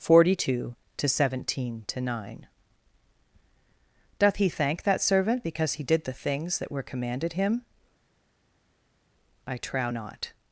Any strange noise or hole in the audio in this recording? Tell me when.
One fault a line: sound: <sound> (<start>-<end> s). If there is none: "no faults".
no faults